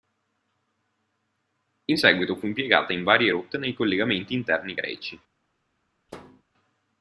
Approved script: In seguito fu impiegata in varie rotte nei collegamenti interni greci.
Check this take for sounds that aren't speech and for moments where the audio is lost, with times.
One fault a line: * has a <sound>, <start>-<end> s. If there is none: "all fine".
* has a thud, 6.1-6.4 s